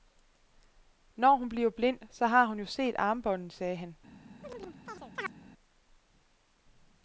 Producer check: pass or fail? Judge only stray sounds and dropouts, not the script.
fail